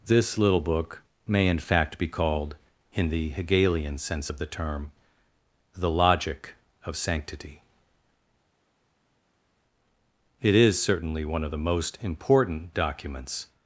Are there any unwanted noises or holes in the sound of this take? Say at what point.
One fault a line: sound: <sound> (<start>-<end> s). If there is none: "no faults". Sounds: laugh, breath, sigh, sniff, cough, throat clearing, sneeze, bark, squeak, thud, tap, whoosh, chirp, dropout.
no faults